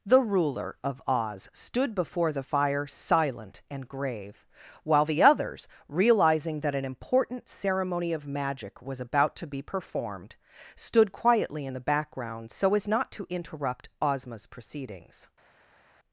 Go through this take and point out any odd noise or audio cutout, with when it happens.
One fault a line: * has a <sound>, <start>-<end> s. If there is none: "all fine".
all fine